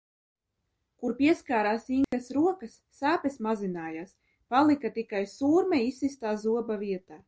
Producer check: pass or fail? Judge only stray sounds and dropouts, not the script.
fail